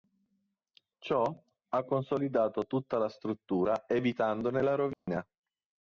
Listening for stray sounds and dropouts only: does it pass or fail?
fail